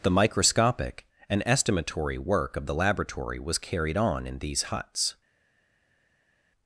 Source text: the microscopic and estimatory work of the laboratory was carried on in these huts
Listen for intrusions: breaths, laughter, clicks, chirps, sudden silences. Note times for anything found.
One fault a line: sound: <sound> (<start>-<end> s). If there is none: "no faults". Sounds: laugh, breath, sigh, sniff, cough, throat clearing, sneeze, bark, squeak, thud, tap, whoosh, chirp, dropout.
no faults